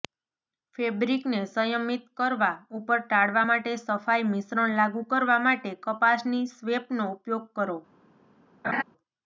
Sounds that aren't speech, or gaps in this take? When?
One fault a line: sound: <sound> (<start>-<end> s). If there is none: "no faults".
sound: laugh (8.6-8.8 s)